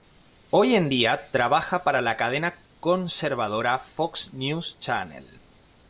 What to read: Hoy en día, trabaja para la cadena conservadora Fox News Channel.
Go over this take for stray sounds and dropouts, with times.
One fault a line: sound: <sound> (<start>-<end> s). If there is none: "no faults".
no faults